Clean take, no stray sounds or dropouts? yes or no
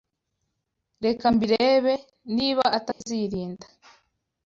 no